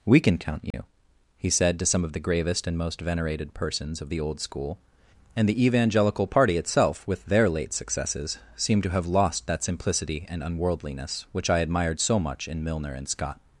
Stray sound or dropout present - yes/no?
yes